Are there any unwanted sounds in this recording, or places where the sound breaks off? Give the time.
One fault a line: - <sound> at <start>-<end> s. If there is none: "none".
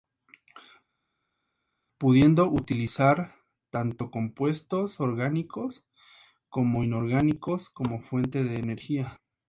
none